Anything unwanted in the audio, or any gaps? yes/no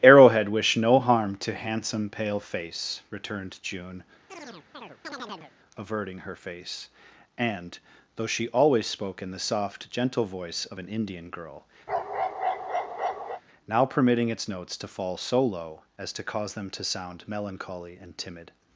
yes